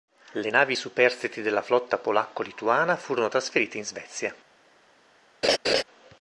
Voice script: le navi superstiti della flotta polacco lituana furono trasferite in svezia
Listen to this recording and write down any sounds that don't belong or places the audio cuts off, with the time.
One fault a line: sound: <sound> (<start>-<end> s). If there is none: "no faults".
sound: laugh (5.4-5.8 s)